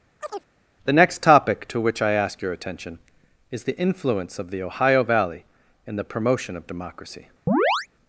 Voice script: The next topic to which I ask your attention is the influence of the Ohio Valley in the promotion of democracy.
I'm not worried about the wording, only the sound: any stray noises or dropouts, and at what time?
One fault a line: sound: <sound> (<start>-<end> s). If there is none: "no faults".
sound: chirp (0.2-0.5 s)
sound: chirp (7.5-7.9 s)